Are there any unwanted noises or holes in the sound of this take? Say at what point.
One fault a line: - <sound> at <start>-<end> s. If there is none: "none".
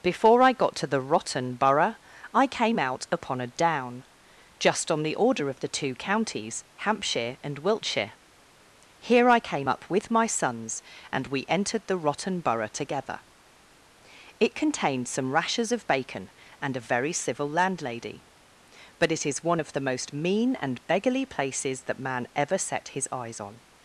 none